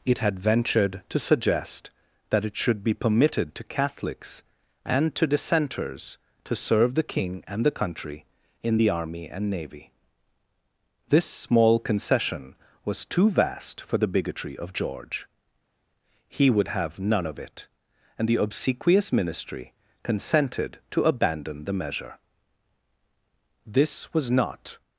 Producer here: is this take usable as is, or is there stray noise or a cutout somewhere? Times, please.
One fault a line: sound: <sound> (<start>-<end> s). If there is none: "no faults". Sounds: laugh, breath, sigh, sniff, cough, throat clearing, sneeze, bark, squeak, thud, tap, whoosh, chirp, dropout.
no faults